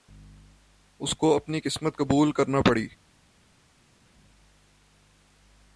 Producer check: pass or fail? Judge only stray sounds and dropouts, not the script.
pass